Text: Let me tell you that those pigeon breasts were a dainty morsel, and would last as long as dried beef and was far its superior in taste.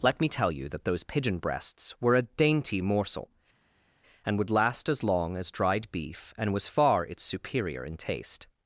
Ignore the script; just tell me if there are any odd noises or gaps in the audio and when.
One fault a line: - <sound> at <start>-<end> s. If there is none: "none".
none